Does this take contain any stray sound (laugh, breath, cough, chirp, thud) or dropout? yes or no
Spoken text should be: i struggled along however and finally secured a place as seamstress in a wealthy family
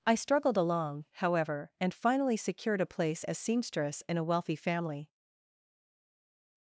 no